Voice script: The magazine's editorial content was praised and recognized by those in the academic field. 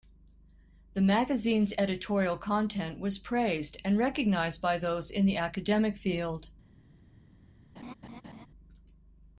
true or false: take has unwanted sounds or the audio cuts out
true